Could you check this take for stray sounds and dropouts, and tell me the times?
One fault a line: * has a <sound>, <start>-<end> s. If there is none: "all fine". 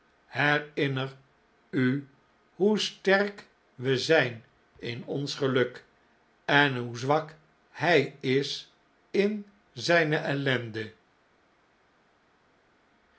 all fine